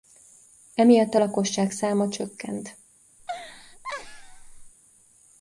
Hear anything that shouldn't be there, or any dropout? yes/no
yes